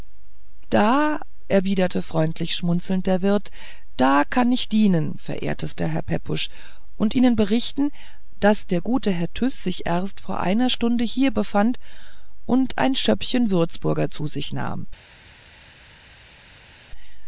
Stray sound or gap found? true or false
false